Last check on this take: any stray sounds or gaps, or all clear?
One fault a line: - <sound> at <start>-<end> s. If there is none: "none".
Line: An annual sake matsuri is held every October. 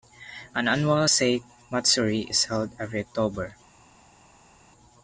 none